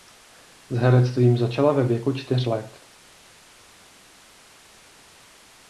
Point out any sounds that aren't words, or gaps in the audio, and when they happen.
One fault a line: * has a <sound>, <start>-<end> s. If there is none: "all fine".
all fine